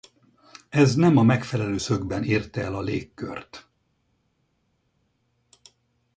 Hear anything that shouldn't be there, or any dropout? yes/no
no